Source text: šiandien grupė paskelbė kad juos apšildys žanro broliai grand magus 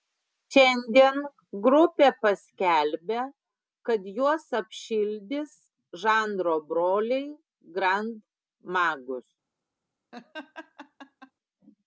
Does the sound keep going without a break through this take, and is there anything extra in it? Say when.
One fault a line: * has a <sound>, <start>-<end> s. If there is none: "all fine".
* has a laugh, 10.1-11.3 s